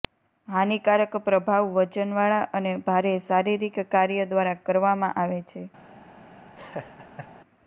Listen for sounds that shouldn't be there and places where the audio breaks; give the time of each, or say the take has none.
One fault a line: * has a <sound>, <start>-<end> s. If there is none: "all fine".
* has a laugh, 6.6-7.3 s